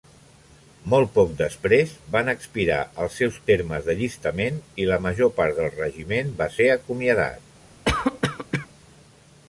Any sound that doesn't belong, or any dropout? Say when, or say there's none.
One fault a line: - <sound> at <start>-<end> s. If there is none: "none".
- cough at 7.9-8.7 s